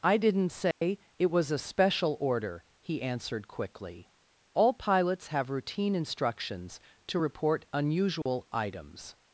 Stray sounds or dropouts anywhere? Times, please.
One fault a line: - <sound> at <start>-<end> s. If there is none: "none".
- dropout at 0.7-0.8 s
- dropout at 8.2-8.3 s